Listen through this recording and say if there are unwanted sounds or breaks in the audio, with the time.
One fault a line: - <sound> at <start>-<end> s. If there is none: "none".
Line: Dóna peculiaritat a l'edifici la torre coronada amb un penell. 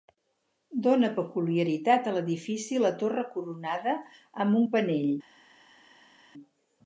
none